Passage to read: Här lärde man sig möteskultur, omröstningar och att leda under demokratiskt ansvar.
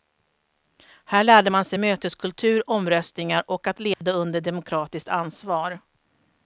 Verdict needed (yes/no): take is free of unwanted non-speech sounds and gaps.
no